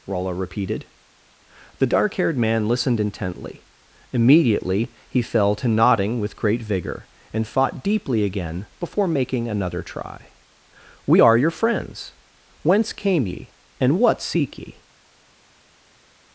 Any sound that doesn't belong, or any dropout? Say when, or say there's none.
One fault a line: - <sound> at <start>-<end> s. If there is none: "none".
none